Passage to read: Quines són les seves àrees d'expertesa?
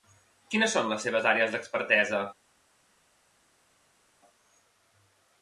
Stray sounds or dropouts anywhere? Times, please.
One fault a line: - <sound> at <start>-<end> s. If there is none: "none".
none